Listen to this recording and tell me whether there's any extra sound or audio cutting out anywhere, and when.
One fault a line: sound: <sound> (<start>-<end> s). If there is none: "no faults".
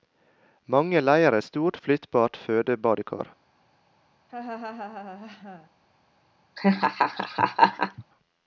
sound: laugh (4.3-5.7 s)
sound: laugh (6.6-8.0 s)